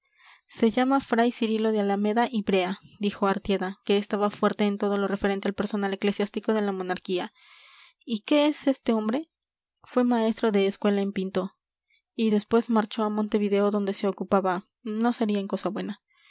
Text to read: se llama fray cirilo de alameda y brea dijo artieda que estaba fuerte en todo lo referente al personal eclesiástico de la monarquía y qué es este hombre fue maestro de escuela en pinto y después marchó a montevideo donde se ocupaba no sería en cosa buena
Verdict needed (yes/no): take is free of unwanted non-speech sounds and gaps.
yes